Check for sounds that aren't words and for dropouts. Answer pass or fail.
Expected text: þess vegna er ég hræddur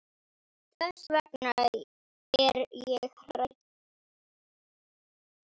pass